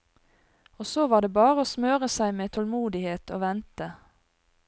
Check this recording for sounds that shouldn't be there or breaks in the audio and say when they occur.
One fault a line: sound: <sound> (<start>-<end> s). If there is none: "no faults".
no faults